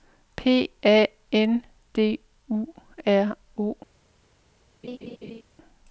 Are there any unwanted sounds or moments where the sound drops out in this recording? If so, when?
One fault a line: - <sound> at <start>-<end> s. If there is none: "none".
- laugh at 4.8-5.4 s